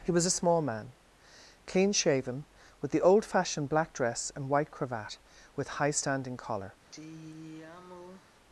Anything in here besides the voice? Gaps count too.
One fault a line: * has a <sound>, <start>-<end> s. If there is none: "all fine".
* has a sigh, 6.9-8.3 s